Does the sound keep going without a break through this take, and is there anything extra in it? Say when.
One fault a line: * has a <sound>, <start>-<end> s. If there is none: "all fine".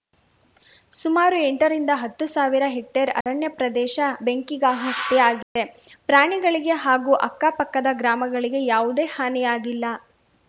* has a dropout, 3.2-3.3 s
* has a dropout, 5.4-5.6 s